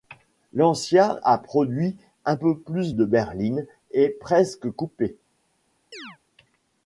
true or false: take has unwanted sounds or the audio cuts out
true